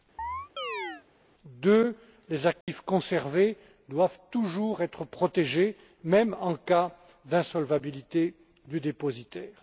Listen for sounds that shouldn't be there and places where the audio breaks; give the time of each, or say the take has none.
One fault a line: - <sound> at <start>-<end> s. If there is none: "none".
- chirp at 0.2-1.0 s
- dropout at 2.6-2.7 s